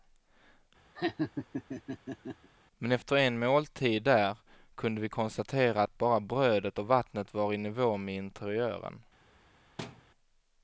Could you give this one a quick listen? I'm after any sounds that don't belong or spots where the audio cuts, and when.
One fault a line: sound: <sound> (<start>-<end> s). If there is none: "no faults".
sound: laugh (1.0-2.5 s)
sound: thud (9.8-10.1 s)